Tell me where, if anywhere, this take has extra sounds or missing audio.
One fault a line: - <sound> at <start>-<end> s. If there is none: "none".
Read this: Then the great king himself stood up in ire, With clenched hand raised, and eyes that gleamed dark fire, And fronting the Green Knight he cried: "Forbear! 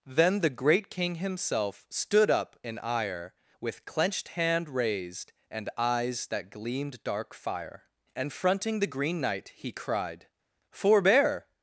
none